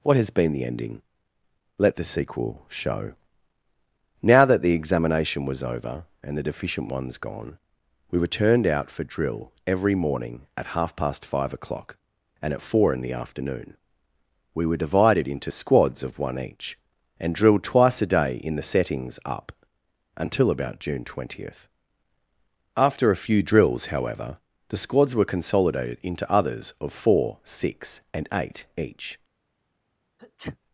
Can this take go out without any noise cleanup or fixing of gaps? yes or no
no